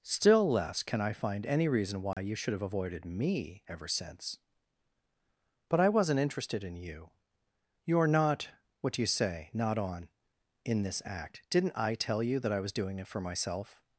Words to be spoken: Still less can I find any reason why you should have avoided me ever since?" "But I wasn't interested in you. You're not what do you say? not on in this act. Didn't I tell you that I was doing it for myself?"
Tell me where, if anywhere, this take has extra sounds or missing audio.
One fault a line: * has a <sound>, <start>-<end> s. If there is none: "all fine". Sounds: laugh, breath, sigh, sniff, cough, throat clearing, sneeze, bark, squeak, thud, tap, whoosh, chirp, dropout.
* has a dropout, 2.1-2.2 s